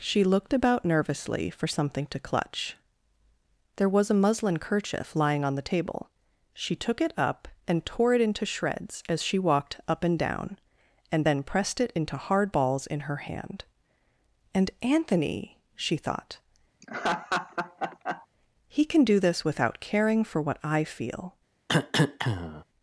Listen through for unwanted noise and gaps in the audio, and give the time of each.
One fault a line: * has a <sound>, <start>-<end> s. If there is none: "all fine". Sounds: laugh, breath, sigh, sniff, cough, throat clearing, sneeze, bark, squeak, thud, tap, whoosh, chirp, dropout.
* has a laugh, 16.8-18.3 s
* has a cough, 21.7-22.6 s